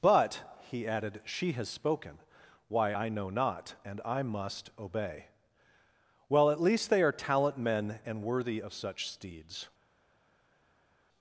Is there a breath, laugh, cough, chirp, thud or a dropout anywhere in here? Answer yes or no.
no